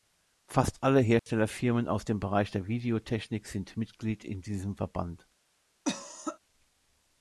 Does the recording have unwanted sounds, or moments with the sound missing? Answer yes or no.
yes